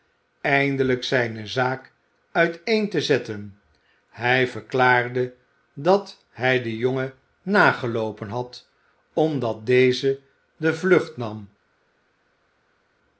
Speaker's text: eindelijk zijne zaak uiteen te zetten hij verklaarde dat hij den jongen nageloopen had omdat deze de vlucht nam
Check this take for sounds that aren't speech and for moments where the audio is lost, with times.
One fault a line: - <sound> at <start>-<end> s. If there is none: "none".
none